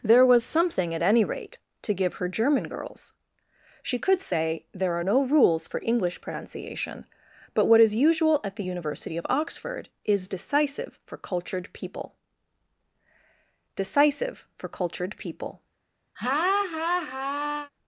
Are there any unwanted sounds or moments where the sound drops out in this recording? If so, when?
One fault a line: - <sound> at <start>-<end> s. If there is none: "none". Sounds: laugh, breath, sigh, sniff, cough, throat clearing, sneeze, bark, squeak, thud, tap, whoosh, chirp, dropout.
- laugh at 16.2-17.7 s